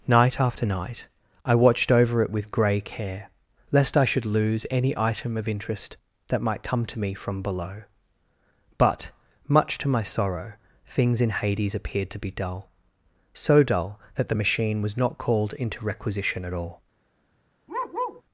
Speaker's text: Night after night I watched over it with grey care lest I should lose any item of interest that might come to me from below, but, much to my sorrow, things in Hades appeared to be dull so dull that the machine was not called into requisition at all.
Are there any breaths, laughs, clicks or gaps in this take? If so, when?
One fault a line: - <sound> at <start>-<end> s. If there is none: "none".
- bark at 17.7-18.2 s